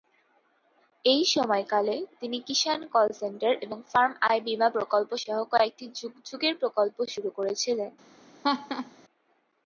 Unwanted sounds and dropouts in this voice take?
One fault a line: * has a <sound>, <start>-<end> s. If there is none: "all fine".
* has a laugh, 8.4-8.9 s